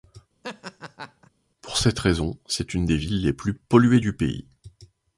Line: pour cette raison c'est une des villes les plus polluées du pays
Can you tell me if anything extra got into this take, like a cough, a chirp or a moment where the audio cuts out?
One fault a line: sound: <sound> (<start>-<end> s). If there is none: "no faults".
sound: laugh (0.4-1.3 s)